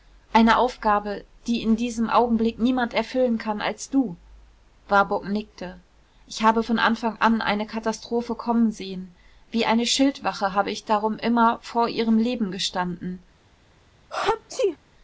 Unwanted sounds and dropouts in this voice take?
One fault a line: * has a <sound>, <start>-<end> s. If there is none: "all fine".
* has a sneeze, 14.1-14.8 s